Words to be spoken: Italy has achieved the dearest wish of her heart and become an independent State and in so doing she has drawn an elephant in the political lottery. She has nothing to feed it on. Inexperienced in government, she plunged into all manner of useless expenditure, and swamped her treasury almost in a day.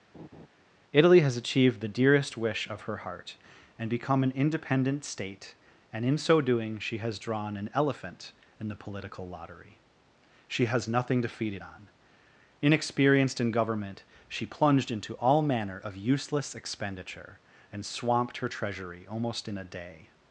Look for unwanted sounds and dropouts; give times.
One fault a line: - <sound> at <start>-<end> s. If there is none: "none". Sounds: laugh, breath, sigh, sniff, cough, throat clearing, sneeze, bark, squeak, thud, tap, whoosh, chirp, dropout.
- laugh at 0.1-0.5 s